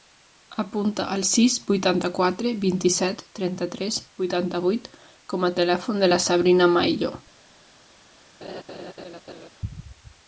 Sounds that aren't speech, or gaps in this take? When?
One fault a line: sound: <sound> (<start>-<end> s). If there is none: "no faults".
sound: laugh (8.4-9.5 s)